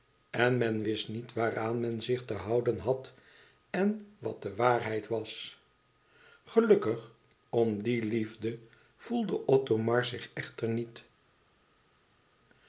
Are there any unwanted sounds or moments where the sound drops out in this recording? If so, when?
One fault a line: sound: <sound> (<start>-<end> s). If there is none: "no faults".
no faults